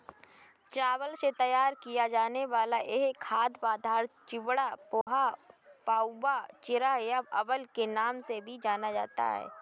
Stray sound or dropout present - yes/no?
yes